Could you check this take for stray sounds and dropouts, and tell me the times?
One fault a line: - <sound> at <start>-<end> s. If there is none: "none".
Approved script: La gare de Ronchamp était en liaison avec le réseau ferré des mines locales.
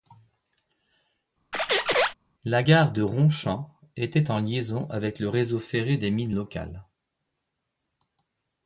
- squeak at 1.5-2.1 s